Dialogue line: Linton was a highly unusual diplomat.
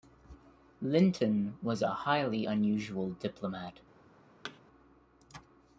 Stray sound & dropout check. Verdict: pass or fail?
fail